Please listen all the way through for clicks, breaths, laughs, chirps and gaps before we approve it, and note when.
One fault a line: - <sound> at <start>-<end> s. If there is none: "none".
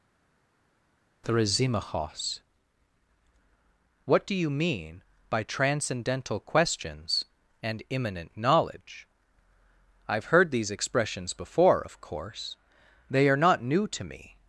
none